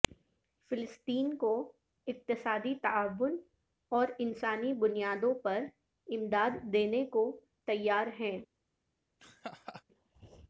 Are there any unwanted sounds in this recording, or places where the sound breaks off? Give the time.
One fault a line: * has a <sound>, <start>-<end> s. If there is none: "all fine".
* has a laugh, 9.2-9.8 s